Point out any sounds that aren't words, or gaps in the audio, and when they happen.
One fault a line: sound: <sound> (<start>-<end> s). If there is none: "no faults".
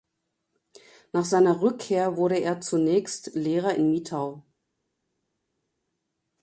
no faults